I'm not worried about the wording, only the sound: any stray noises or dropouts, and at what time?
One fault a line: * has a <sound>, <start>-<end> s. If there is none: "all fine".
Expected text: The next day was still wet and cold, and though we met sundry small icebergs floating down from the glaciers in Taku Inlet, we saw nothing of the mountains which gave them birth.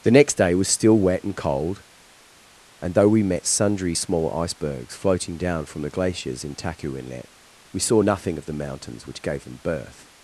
all fine